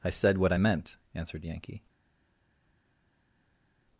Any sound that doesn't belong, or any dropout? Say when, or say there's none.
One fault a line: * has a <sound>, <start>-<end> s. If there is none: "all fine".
all fine